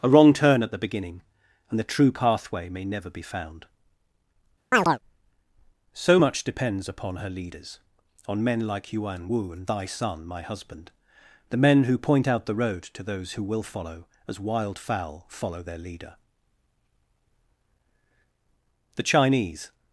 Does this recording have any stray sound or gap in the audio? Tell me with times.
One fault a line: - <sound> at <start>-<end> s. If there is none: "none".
- chirp at 4.7-5.0 s